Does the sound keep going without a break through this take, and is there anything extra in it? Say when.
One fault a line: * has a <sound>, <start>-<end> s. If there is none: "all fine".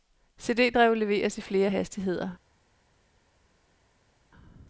all fine